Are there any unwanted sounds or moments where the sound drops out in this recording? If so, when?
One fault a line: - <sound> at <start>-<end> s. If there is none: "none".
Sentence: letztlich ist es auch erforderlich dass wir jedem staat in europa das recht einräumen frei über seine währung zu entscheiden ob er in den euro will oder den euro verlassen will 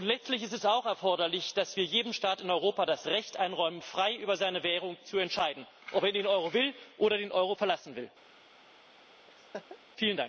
- laugh at 9.3-9.8 s